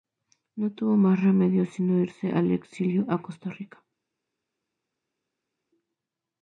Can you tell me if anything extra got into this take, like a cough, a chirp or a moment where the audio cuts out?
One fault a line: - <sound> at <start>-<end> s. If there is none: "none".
none